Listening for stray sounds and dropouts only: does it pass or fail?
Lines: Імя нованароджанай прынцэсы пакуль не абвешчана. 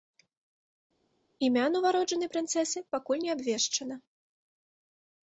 pass